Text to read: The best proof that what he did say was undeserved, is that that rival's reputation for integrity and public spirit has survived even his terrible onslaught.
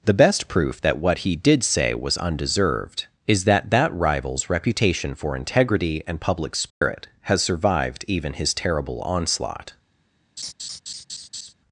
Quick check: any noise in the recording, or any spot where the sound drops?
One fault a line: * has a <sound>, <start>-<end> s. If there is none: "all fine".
* has a dropout, 6.7-6.8 s
* has a laugh, 10.4-11.5 s